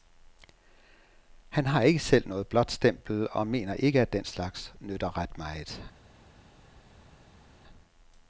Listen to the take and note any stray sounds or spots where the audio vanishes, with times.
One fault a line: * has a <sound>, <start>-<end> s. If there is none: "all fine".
all fine